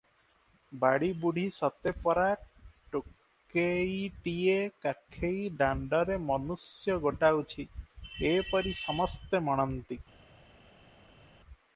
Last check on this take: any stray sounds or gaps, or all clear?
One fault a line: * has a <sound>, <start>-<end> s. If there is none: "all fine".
all fine